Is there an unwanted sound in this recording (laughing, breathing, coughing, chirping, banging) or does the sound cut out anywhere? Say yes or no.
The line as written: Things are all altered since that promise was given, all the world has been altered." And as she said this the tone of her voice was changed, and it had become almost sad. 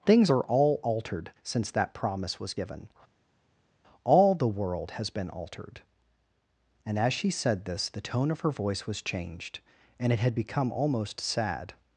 no